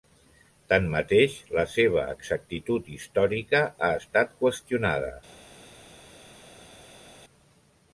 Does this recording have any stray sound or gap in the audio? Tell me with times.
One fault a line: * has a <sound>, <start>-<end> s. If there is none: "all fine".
all fine